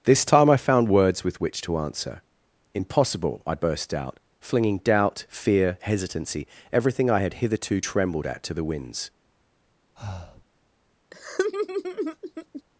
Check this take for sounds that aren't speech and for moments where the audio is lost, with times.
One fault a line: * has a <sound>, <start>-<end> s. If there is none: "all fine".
* has a breath, 10.0-10.5 s
* has a laugh, 11.1-12.6 s